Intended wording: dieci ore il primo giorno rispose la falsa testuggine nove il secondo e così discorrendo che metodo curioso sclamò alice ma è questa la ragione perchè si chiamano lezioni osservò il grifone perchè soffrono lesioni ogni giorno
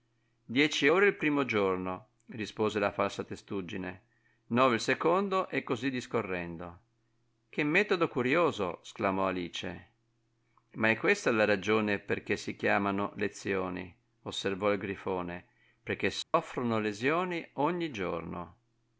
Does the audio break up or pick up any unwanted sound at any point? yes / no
yes